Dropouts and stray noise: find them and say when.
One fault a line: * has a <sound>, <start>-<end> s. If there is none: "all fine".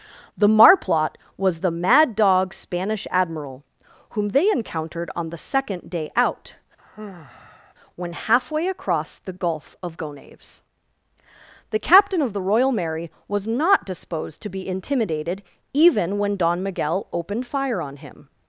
* has a sigh, 6.8-7.7 s